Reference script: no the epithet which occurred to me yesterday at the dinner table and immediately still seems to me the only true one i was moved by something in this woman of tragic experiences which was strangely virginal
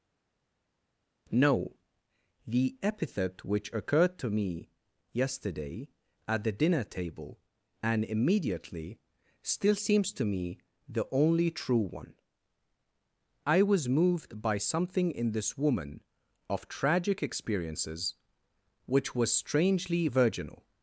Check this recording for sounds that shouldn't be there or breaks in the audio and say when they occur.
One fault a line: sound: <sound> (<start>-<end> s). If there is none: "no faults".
no faults